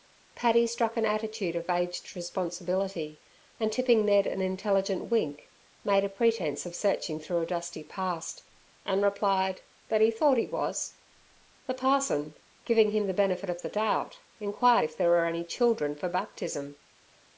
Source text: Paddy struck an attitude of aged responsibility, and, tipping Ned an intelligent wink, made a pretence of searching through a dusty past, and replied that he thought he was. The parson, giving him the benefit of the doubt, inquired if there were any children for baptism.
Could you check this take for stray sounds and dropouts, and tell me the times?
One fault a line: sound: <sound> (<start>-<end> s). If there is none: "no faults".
no faults